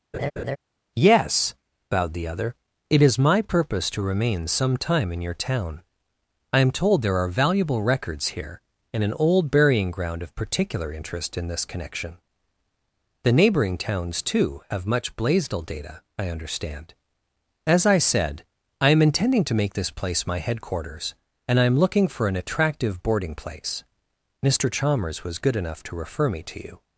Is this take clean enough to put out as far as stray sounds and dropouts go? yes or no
no